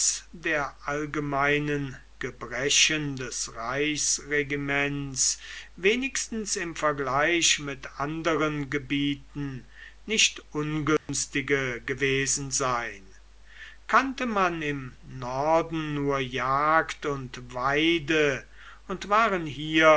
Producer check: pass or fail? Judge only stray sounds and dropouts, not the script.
fail